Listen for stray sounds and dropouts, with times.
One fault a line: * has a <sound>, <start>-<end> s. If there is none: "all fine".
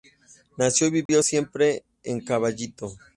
* has a dropout, 1.1-1.1 s